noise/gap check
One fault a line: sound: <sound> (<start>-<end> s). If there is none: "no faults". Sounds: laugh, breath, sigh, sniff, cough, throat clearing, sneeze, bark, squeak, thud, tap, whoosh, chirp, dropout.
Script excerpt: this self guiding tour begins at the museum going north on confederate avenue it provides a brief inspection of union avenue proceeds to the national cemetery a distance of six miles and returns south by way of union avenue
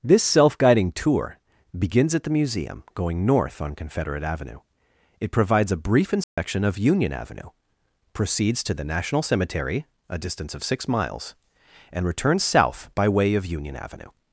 sound: dropout (6.2-6.4 s)